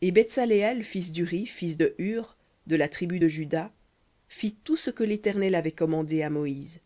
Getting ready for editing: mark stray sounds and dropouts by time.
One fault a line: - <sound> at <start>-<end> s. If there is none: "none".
none